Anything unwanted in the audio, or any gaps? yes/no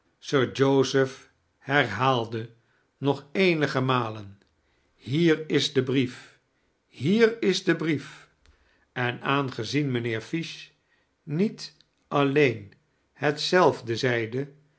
no